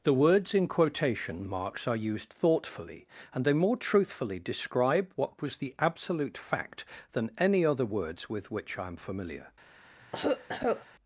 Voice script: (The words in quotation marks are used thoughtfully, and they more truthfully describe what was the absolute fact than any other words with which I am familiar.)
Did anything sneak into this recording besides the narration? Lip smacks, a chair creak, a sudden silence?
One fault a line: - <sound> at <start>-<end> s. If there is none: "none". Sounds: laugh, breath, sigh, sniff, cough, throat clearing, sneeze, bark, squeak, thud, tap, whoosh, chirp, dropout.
- cough at 10.0-10.9 s